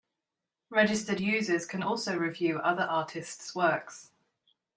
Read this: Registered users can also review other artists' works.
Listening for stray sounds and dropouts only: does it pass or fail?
pass